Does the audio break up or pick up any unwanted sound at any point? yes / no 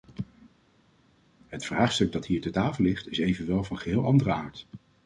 no